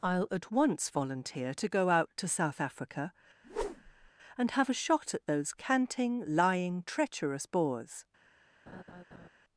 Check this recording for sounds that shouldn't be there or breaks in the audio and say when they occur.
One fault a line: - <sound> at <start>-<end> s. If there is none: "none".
- whoosh at 3.4-4.1 s
- laugh at 8.7-9.3 s